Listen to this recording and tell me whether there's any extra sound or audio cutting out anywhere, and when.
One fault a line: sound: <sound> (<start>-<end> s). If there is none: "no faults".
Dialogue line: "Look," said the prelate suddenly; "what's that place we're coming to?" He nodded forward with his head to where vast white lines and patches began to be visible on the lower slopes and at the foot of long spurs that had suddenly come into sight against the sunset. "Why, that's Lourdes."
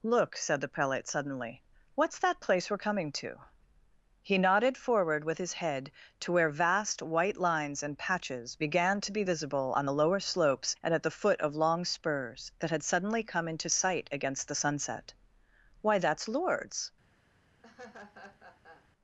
sound: laugh (17.6-18.9 s)